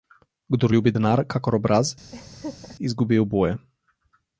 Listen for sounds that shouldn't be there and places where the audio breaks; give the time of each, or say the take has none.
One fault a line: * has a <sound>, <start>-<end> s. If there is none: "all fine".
* has a laugh, 2.1-2.8 s